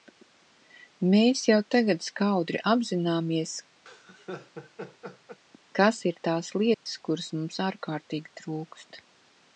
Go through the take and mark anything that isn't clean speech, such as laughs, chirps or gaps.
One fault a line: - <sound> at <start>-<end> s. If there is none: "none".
- laugh at 3.9-5.4 s
- dropout at 6.7-6.9 s